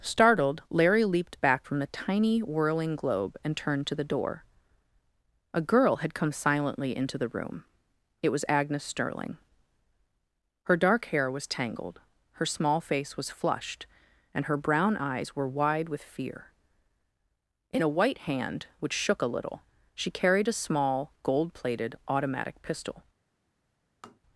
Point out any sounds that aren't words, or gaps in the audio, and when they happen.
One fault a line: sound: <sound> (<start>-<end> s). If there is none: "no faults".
sound: tap (24.0-24.2 s)